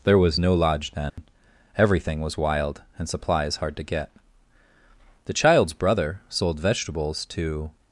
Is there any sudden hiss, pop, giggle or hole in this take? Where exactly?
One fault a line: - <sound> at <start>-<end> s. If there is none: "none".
- dropout at 1.1-1.2 s